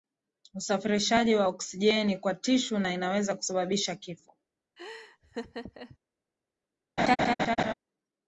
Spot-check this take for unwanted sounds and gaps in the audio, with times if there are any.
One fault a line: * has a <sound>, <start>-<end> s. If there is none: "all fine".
* has a laugh, 4.8-6.0 s
* has a laugh, 7.0-7.7 s